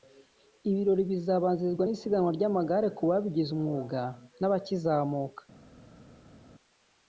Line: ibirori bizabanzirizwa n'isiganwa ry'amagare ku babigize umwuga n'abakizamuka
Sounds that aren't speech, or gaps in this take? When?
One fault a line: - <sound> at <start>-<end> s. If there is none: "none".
none